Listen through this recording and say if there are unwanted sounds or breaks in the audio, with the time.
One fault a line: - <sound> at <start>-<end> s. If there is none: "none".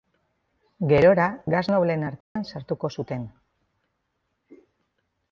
- dropout at 2.2-2.4 s